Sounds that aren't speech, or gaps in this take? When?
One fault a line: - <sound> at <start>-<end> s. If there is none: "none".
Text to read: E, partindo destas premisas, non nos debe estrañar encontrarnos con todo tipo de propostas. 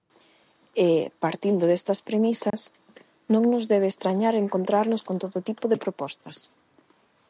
- dropout at 2.5-2.5 s